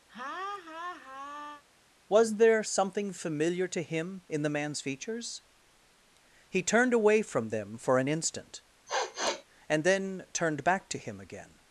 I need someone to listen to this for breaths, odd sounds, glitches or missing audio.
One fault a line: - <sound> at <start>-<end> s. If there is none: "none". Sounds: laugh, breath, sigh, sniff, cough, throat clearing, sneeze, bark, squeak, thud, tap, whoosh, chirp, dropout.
- laugh at 0.1-1.6 s
- sniff at 8.9-9.4 s